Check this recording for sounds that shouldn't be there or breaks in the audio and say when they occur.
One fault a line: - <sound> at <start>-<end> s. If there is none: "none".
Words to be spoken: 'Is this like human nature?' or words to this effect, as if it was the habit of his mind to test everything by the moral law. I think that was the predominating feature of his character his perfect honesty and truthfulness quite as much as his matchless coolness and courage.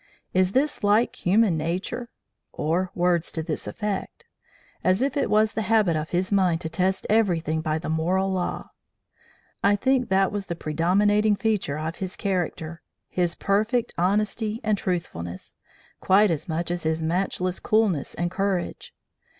none